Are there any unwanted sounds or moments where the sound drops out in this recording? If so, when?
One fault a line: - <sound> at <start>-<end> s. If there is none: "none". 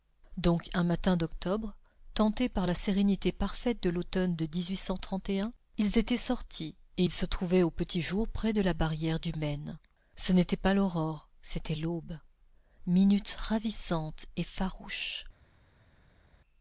none